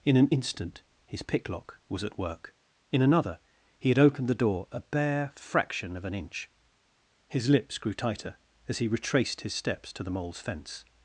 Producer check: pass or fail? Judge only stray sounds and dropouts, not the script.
pass